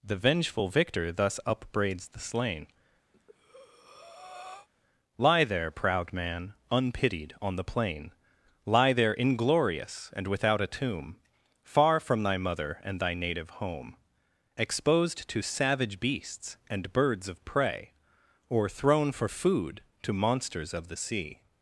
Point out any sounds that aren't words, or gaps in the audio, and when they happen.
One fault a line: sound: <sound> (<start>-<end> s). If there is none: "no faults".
sound: breath (3.1-4.7 s)